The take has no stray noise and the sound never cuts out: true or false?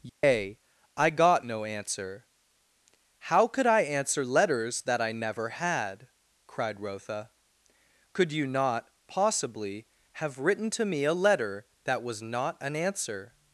false